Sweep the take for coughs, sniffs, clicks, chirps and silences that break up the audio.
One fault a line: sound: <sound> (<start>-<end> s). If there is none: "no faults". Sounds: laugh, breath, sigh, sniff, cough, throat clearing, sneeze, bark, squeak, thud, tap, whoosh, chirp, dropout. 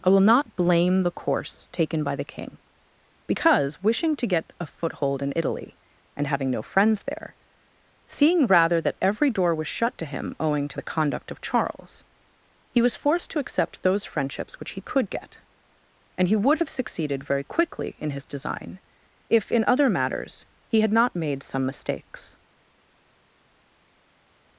no faults